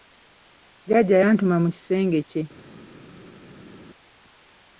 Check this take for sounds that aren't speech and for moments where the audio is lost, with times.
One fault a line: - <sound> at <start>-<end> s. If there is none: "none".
none